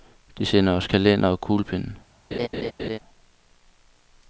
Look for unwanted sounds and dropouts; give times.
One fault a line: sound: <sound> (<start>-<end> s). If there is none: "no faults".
sound: laugh (2.3-3.0 s)